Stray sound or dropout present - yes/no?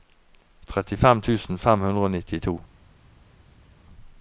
no